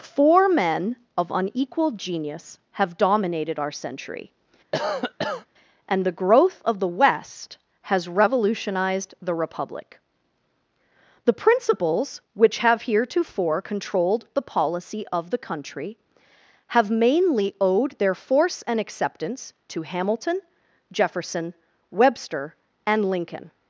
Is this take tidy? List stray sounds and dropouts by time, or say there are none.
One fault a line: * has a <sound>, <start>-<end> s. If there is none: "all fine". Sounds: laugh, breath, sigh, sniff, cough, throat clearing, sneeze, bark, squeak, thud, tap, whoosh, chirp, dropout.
* has a cough, 4.7-5.5 s